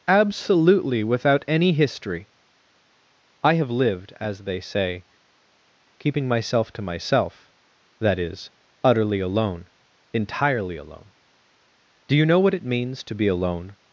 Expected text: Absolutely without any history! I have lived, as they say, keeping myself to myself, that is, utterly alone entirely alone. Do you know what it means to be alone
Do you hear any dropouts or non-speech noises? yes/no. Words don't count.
no